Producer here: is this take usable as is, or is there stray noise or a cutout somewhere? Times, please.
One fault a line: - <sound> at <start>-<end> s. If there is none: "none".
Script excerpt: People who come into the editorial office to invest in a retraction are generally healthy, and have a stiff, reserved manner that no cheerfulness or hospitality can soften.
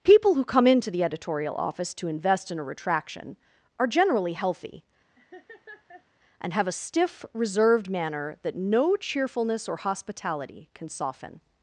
- laugh at 5.2-6.1 s